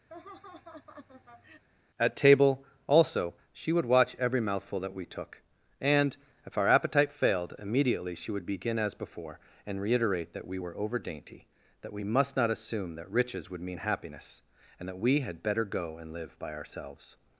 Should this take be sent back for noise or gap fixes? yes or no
yes